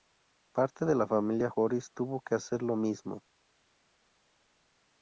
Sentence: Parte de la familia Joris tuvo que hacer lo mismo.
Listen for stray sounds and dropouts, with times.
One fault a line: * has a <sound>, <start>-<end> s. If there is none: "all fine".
all fine